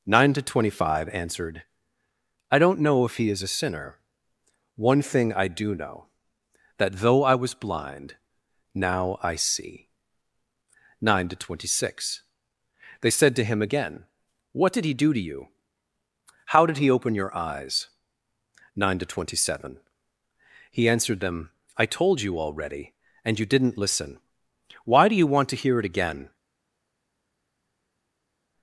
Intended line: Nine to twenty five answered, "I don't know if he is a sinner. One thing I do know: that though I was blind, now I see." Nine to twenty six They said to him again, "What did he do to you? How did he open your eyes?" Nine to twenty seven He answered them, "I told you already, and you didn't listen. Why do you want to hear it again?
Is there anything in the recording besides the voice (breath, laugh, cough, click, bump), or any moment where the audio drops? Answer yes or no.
no